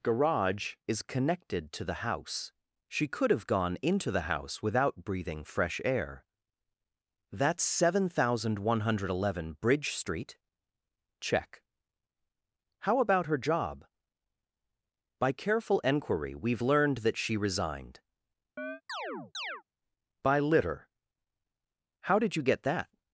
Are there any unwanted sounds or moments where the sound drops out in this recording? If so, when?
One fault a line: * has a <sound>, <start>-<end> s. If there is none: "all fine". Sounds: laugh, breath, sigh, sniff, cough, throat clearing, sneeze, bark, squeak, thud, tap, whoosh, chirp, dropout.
* has a chirp, 18.6-19.6 s